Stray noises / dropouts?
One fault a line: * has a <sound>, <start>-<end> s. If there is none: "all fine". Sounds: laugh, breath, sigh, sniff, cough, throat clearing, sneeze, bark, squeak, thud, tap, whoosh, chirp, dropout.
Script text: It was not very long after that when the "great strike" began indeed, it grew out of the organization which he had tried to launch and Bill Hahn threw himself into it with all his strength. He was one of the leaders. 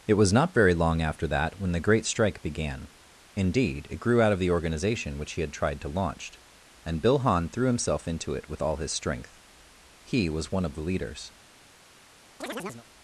* has a chirp, 12.4-12.9 s